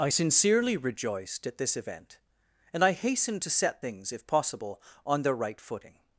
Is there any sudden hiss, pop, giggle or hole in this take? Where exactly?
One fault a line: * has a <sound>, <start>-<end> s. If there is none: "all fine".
all fine